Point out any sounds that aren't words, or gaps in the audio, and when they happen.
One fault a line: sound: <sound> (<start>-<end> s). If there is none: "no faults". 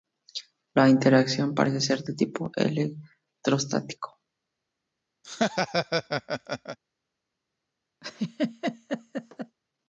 sound: laugh (5.2-6.8 s)
sound: laugh (8.0-9.6 s)